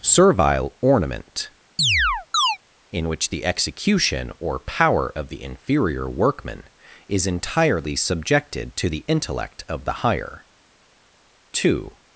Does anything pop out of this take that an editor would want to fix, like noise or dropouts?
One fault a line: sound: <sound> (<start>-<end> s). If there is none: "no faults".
sound: chirp (1.8-2.6 s)